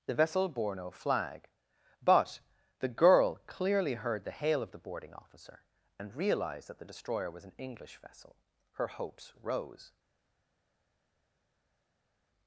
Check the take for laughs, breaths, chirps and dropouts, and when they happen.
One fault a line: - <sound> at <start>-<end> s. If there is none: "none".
none